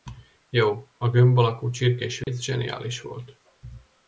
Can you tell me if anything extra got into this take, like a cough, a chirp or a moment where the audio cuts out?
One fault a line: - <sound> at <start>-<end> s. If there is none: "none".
- dropout at 2.2-2.3 s